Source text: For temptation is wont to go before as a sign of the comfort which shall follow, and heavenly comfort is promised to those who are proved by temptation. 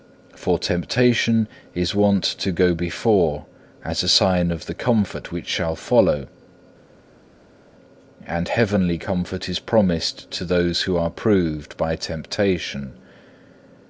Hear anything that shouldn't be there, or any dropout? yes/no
no